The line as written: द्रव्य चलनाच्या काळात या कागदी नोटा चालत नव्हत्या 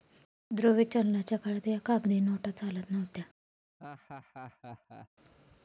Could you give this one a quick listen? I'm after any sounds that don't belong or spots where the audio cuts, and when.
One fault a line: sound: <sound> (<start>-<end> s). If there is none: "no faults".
sound: laugh (3.8-5.1 s)